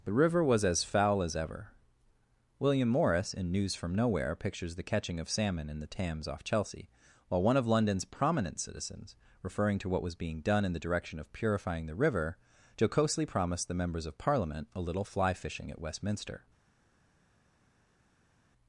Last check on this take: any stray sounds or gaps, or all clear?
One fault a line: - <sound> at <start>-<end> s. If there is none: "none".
none